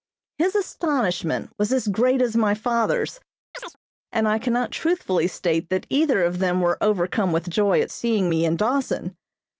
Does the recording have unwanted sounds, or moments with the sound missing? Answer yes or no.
yes